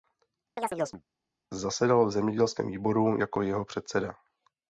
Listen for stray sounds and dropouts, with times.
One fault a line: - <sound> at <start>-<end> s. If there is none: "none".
- chirp at 0.6-1.0 s